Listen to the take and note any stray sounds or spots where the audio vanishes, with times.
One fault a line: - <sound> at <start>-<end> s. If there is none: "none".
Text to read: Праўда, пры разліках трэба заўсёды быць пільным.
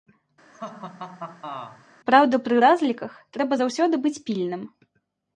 - laugh at 0.5-1.9 s